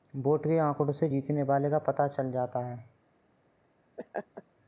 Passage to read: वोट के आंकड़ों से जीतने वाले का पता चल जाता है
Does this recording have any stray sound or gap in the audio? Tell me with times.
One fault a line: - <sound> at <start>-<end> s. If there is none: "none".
- laugh at 4.0-4.4 s